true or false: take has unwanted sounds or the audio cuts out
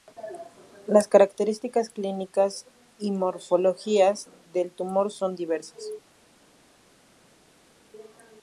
false